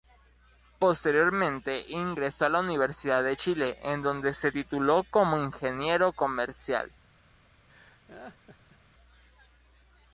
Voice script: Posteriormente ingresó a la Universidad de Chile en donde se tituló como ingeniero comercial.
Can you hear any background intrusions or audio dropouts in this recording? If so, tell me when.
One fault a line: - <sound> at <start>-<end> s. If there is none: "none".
- laugh at 7.7-8.8 s